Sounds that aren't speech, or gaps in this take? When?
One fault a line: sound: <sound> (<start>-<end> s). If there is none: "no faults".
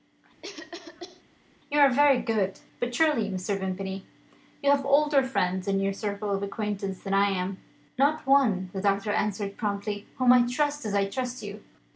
sound: cough (0.4-1.2 s)